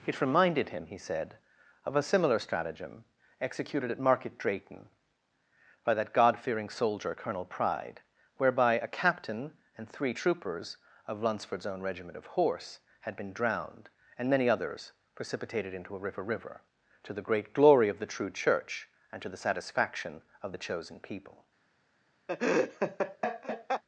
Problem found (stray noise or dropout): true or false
true